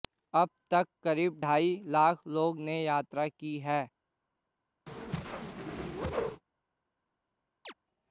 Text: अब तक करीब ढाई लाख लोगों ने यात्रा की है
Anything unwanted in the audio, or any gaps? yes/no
yes